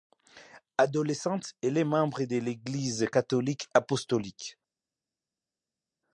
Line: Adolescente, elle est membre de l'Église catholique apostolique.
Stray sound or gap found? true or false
false